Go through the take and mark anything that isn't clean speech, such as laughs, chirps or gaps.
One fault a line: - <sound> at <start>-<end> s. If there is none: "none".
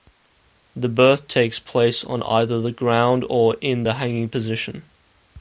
none